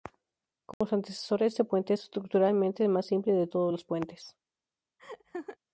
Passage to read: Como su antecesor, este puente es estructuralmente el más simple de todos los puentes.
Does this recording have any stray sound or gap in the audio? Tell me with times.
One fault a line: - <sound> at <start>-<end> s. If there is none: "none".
- dropout at 0.7-0.8 s
- laugh at 5.0-5.6 s